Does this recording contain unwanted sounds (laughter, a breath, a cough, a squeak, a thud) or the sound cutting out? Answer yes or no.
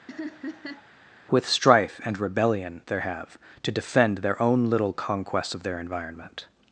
yes